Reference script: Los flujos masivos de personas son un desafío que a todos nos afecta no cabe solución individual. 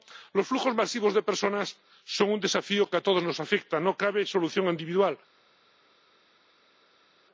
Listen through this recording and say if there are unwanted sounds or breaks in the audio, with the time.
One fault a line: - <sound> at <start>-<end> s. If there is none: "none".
none